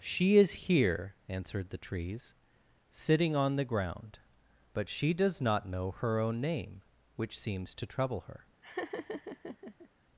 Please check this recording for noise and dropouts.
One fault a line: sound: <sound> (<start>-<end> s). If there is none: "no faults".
sound: laugh (8.6-9.9 s)